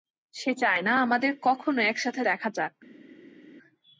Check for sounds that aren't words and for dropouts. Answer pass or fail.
pass